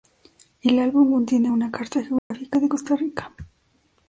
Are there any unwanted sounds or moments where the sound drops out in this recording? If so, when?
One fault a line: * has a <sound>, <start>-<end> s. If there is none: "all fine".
* has a dropout, 2.2-2.3 s